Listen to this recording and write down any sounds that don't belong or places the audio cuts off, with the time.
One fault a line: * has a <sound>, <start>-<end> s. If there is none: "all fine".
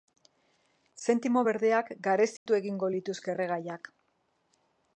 * has a dropout, 2.4-2.5 s